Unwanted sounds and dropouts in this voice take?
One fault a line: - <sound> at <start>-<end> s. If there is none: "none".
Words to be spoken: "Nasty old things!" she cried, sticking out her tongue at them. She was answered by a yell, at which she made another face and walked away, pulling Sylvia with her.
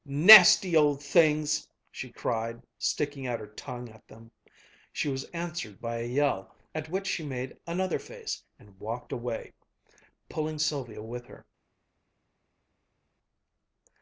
none